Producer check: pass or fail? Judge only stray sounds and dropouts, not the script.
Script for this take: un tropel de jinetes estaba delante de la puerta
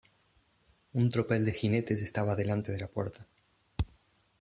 pass